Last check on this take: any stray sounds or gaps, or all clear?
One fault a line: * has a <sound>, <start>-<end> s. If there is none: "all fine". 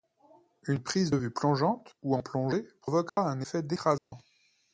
* has a dropout, 3.1-3.2 s
* has a dropout, 4.0-4.1 s